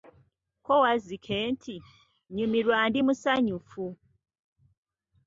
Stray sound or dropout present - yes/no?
no